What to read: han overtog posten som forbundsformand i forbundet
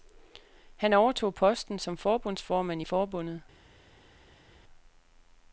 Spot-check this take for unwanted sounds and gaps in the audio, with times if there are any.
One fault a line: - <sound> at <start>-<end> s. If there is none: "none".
none